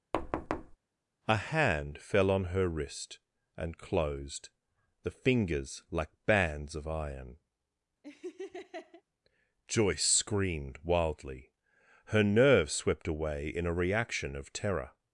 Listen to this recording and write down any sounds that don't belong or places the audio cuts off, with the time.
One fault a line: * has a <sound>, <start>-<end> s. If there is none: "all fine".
* has a thud, 0.1-0.8 s
* has a laugh, 8.0-9.0 s